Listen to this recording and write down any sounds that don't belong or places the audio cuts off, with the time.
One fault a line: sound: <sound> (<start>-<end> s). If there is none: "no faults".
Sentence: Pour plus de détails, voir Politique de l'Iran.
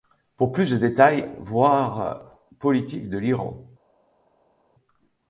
no faults